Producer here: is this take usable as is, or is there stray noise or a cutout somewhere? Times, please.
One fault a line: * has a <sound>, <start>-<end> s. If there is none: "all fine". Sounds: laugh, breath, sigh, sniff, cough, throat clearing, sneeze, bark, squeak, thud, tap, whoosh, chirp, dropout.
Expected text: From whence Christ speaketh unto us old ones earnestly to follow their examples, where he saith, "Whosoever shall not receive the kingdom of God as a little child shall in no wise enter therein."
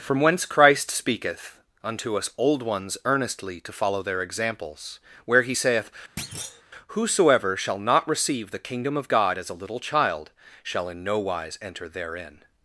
* has a thud, 6.2-6.6 s